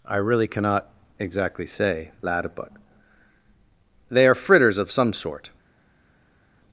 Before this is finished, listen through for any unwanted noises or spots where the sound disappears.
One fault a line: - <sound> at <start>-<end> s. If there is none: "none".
none